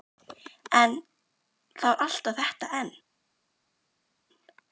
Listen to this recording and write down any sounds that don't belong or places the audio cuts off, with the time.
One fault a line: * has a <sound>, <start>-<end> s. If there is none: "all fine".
all fine